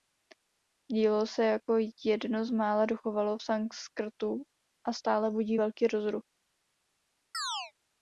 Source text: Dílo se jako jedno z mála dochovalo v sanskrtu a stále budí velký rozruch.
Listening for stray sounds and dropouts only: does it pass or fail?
fail